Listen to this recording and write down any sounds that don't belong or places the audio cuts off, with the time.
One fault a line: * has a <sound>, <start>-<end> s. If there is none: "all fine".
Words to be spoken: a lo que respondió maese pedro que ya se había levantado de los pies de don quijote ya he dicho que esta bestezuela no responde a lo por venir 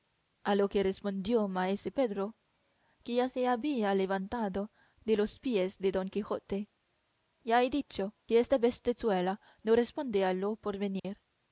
* has a dropout, 11.0-11.0 s